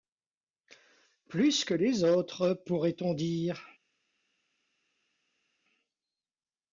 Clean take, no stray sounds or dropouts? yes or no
yes